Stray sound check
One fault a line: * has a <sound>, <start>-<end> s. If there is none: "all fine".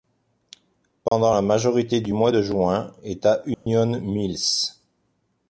* has a dropout, 1.1-1.1 s
* has a dropout, 3.5-3.7 s